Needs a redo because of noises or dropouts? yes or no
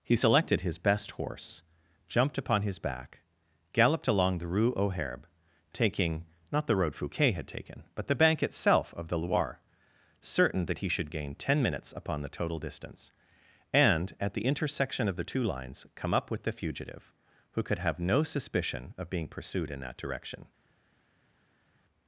no